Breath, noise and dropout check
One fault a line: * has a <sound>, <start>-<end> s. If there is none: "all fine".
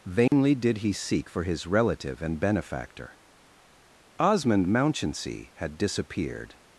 * has a dropout, 0.3-0.3 s